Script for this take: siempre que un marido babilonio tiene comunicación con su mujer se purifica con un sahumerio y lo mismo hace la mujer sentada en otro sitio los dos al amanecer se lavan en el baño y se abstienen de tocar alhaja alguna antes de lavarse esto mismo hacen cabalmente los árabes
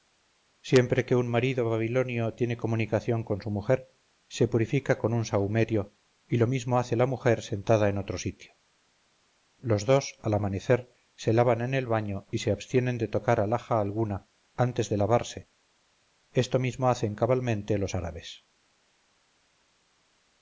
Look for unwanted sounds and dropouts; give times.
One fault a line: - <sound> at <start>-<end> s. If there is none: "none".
none